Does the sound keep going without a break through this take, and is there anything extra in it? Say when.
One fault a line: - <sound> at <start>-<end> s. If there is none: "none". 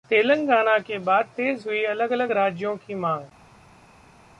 none